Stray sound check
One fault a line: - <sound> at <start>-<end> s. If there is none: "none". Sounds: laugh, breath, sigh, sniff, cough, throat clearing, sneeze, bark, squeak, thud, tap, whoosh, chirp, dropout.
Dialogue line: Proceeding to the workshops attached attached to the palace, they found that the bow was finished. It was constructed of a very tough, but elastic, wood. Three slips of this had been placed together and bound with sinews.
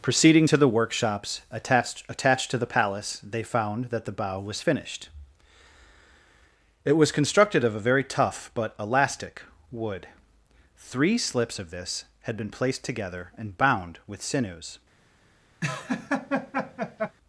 - laugh at 15.6-17.2 s